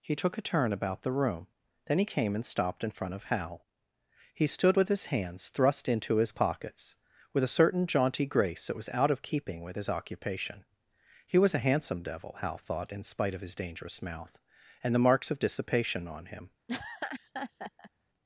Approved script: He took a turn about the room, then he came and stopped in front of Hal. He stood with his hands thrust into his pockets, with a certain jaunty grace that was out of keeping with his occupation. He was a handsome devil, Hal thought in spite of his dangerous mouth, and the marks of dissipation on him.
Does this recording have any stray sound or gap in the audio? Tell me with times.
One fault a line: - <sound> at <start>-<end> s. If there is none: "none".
- laugh at 16.7-17.9 s